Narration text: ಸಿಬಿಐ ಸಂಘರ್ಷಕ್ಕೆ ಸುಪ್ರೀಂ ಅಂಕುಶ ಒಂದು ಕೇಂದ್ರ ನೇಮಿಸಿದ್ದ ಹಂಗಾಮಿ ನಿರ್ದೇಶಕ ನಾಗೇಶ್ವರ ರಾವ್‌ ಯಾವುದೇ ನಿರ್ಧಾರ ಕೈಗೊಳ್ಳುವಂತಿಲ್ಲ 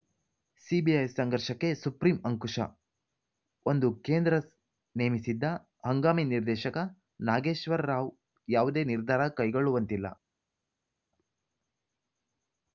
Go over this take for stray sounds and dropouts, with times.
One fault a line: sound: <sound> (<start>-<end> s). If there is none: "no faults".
no faults